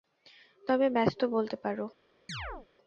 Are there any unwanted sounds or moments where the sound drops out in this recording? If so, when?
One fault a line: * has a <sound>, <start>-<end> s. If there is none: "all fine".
* has a chirp, 2.3-2.7 s